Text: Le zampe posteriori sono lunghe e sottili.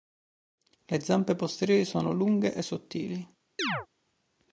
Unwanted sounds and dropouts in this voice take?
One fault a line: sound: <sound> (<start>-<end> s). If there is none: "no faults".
sound: chirp (3.6-3.9 s)